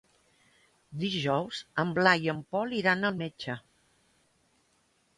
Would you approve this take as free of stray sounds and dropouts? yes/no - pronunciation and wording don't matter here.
yes